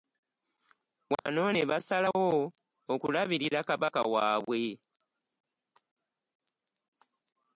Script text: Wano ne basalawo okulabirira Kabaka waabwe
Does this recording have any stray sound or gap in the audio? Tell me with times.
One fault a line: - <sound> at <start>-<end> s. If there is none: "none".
- dropout at 1.2-1.3 s